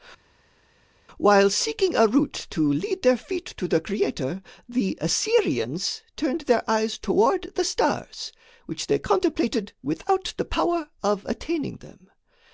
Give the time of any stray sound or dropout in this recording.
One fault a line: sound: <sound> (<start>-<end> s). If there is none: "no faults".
no faults